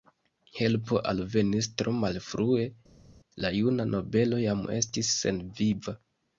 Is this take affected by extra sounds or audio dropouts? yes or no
no